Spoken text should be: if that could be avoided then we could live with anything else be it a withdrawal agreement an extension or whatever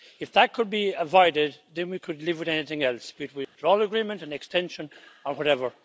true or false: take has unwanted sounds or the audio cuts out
true